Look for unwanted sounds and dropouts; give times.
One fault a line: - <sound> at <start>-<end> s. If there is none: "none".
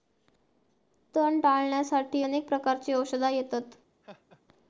- laugh at 4.0-4.4 s